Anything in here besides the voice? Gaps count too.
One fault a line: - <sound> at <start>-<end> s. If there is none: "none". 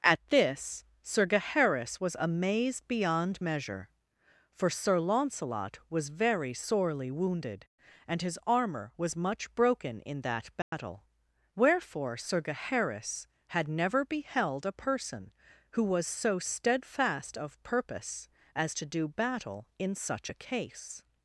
- dropout at 10.6-10.7 s